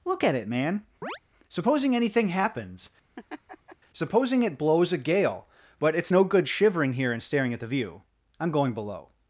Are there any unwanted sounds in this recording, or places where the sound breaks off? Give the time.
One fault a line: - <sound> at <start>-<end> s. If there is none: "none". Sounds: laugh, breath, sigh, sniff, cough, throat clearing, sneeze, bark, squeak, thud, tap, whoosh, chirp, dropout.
- chirp at 1.0-1.2 s
- laugh at 3.2-3.8 s